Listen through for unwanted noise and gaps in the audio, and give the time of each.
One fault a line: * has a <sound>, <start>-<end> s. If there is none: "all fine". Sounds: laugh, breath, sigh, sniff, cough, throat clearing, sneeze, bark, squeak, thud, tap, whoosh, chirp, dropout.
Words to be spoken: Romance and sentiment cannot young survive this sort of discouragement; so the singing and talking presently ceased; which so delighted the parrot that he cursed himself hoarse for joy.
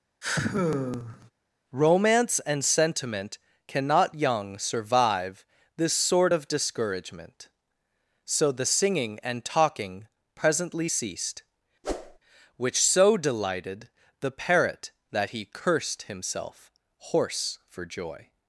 * has a sigh, 0.2-1.3 s
* has a whoosh, 11.8-12.2 s